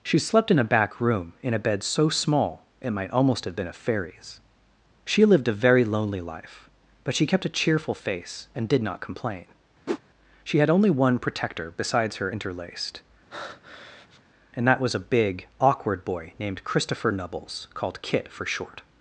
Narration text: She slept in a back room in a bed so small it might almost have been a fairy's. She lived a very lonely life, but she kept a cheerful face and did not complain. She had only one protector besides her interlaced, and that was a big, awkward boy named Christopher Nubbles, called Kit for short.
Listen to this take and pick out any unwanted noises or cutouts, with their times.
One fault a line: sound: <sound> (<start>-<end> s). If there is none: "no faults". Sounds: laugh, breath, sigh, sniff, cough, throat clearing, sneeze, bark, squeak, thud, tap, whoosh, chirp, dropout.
sound: whoosh (9.9-10.0 s)
sound: breath (13.3-14.2 s)